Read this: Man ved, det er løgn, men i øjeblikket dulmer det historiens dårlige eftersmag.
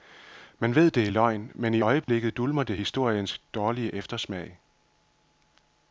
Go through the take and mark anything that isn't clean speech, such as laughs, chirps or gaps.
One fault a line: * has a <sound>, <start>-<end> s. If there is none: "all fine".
* has a dropout, 2.0-2.1 s